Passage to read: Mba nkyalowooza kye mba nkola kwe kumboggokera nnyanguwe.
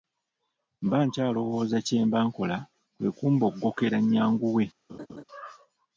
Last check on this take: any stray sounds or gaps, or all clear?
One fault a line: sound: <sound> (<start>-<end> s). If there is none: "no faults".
sound: laugh (4.9-5.2 s)